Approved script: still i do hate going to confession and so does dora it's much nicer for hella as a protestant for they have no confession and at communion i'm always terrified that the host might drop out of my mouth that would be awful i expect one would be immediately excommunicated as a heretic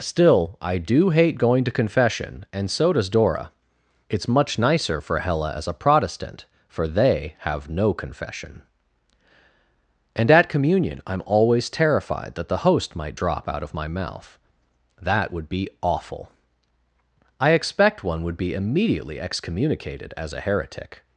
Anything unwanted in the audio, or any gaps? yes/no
no